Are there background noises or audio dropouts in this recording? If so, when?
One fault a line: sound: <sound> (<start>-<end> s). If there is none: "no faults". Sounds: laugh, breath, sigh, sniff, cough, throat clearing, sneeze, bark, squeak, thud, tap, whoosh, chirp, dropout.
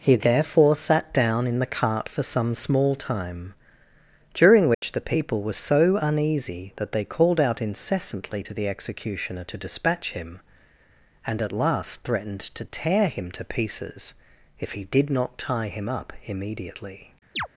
sound: dropout (4.7-4.8 s)
sound: chirp (17.4-17.5 s)